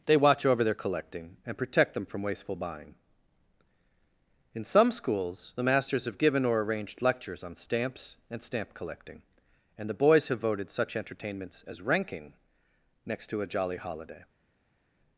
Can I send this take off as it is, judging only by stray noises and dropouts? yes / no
yes